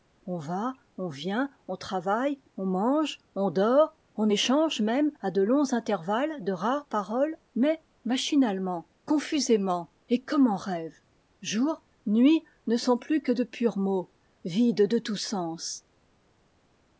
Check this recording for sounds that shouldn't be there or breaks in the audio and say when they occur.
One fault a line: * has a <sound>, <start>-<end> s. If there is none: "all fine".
all fine